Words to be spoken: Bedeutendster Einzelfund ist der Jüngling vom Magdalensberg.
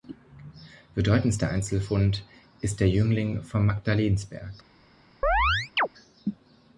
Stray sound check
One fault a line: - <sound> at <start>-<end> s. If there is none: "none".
- chirp at 5.2-5.9 s